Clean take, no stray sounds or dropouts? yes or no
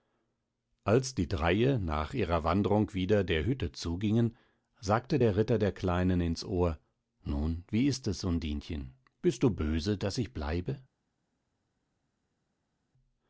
yes